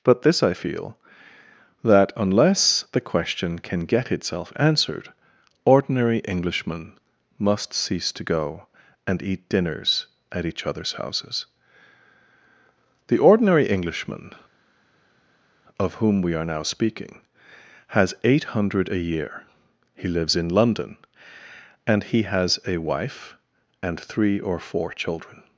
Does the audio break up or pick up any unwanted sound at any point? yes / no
no